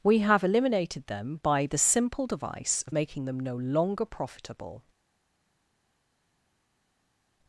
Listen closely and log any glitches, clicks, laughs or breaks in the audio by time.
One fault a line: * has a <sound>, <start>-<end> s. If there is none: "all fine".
all fine